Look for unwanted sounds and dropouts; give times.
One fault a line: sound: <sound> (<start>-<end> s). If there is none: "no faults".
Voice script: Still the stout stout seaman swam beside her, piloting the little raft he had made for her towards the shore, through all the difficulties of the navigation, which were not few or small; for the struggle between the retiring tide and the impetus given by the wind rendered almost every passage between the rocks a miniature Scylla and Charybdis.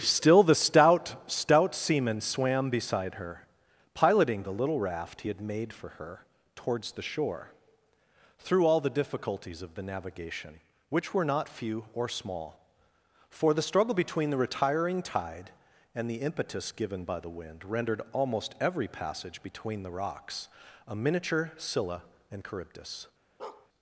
sound: bark (23.4-23.7 s)